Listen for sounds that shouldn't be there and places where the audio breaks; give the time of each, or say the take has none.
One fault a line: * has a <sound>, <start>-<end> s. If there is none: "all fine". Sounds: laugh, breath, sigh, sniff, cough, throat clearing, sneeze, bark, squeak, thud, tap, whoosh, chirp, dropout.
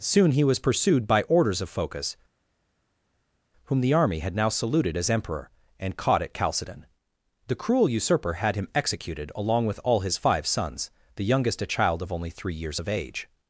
all fine